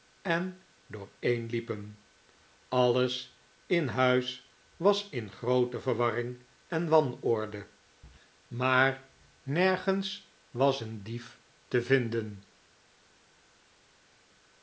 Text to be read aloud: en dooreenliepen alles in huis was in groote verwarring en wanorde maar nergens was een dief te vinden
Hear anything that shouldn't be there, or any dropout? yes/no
no